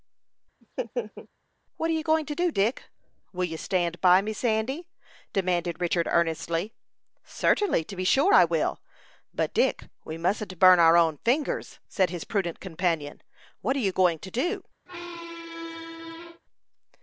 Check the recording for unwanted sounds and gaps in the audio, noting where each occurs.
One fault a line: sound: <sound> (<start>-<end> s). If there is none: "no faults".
sound: laugh (0.6-1.3 s)
sound: squeak (14.9-16.4 s)